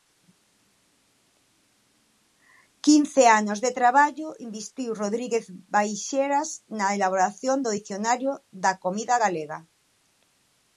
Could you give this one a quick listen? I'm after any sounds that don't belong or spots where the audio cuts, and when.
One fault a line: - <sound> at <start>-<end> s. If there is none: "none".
none